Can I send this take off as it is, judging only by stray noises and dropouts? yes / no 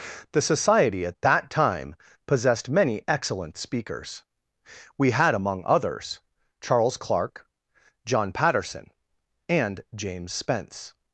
yes